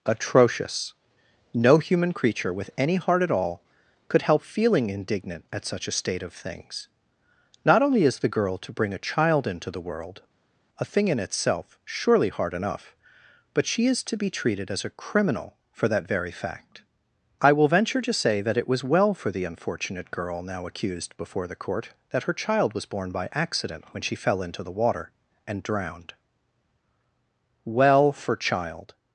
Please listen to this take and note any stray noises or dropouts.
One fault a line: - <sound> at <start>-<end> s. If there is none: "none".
none